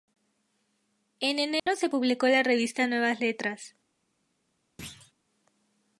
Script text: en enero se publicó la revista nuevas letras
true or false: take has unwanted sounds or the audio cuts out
true